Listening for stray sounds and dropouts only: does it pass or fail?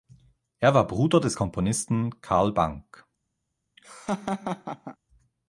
fail